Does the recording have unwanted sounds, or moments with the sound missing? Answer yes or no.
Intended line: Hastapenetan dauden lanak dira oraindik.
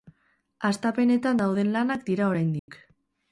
yes